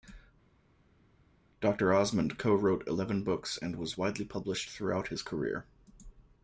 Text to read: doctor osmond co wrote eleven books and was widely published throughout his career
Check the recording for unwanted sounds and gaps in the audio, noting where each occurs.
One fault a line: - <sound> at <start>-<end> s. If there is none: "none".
none